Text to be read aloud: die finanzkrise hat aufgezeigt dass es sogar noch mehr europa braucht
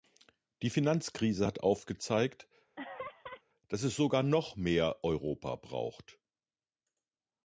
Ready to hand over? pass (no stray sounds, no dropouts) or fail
fail